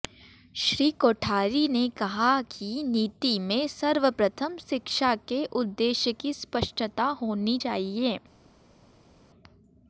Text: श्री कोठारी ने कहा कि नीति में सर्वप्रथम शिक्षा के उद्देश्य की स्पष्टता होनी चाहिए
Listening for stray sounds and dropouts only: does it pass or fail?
pass